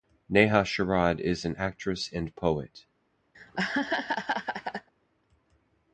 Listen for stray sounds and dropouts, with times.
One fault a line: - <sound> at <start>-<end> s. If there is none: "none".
- laugh at 3.3-4.9 s